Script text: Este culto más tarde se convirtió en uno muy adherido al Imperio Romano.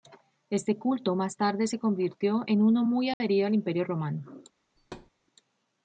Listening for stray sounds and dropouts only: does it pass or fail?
fail